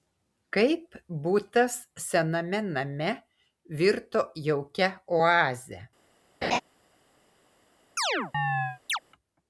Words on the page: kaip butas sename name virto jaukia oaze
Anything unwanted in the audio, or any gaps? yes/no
yes